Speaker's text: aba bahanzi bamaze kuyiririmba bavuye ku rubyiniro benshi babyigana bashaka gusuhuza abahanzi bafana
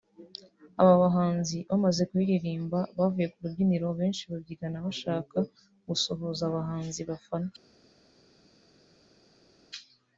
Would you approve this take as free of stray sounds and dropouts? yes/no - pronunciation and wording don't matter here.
yes